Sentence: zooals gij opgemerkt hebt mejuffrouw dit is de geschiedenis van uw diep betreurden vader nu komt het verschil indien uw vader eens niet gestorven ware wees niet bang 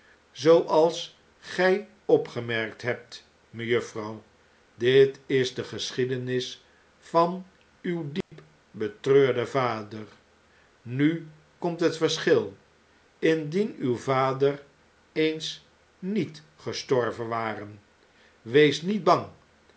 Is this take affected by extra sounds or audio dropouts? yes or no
yes